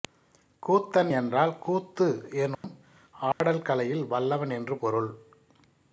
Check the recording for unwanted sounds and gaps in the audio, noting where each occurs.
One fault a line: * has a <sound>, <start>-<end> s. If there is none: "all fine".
* has a dropout, 2.5-2.6 s
* has a dropout, 3.3-3.4 s